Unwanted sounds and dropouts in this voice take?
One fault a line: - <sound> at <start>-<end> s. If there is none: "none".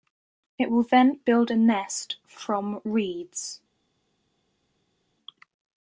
none